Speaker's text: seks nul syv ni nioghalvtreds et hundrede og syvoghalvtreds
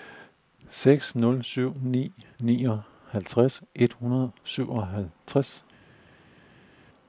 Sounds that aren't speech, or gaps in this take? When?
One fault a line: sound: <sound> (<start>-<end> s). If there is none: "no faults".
no faults